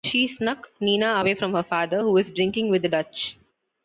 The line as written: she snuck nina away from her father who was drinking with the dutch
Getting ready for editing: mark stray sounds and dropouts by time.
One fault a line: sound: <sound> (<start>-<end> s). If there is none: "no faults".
no faults